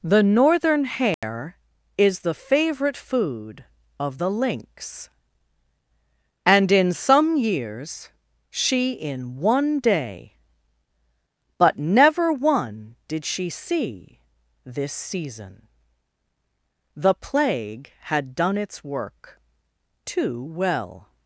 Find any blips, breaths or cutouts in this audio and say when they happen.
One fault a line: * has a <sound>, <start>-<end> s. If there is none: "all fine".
* has a dropout, 1.1-1.2 s